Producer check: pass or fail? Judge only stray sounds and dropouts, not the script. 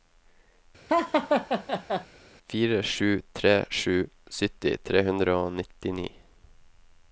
fail